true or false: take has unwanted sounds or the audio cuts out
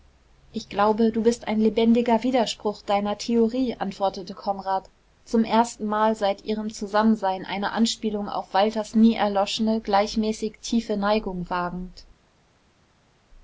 false